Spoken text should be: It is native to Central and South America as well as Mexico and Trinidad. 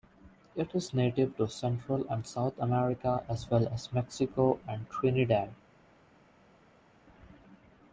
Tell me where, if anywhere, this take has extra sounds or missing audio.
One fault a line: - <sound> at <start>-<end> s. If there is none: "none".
none